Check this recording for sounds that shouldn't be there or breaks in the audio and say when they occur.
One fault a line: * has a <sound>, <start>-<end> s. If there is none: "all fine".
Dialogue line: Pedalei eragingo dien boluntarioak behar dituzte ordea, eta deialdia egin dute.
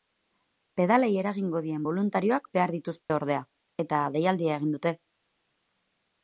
* has a dropout, 3.0-3.1 s